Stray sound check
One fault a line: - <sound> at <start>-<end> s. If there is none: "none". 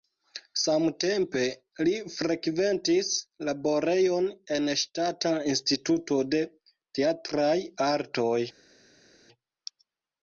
none